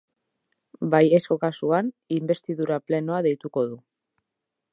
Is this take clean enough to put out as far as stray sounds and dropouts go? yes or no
yes